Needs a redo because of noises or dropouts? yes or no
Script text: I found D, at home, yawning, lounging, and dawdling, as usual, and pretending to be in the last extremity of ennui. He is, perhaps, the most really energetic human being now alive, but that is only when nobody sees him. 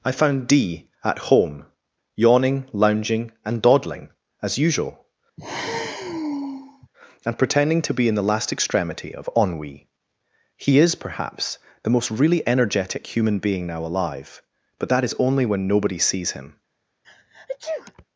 yes